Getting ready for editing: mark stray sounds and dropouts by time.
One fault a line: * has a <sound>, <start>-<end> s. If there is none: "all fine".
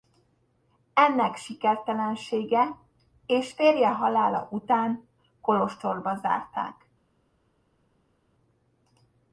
all fine